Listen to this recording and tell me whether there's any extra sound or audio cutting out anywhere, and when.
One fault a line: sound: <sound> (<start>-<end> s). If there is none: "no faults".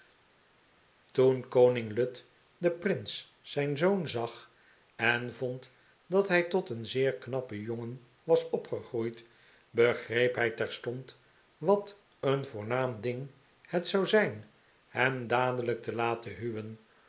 no faults